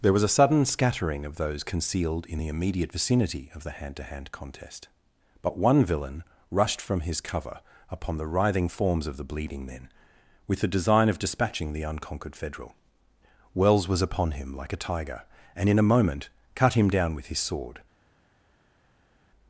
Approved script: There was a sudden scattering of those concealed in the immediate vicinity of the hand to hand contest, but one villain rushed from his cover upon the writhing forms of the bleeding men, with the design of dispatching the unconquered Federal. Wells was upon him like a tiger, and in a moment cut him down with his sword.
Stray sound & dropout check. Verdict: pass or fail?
pass